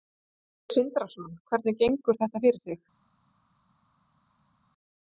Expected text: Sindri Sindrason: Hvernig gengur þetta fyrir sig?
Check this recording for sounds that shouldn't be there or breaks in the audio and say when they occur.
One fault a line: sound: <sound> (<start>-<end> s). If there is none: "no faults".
no faults